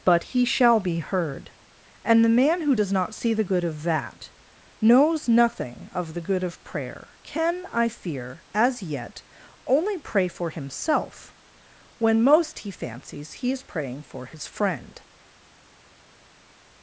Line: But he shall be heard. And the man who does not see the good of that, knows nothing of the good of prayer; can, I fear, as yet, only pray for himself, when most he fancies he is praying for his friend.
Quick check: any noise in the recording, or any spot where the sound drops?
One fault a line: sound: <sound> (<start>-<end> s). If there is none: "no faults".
no faults